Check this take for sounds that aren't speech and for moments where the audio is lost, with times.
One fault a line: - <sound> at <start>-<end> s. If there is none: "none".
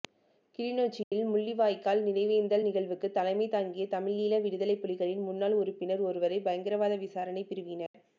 - dropout at 1.0-1.1 s
- dropout at 7.9-7.9 s